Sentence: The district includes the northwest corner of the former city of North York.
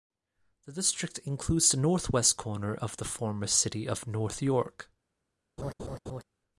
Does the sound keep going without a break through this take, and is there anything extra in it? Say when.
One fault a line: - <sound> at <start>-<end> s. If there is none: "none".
- laugh at 5.6-6.2 s